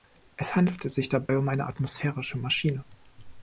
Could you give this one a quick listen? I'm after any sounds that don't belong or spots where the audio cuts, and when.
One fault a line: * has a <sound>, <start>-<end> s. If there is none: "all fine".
* has a dropout, 1.3-1.3 s